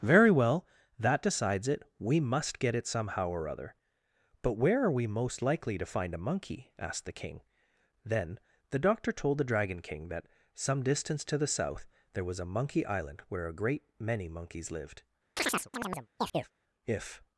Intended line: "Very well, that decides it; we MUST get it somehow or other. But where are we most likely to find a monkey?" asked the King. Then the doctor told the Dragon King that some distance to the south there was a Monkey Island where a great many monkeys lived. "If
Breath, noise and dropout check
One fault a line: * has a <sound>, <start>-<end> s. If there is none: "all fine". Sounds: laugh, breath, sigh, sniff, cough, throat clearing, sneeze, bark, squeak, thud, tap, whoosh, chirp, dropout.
* has a chirp, 15.4-16.5 s